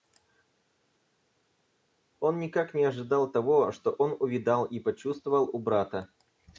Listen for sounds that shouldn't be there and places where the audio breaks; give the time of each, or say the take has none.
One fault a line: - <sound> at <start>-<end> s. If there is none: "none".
none